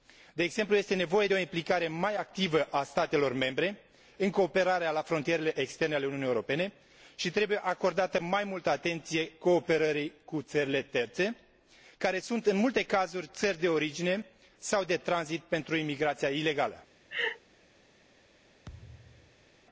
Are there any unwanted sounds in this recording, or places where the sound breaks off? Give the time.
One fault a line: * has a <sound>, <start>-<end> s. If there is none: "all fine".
* has a laugh, 17.1-17.4 s
* has a thud, 18.6-19.5 s